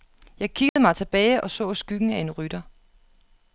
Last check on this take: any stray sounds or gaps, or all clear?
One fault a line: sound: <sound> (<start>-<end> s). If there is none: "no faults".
sound: dropout (0.7-0.8 s)